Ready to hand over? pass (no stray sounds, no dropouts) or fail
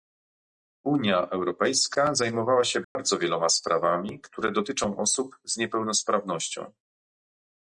fail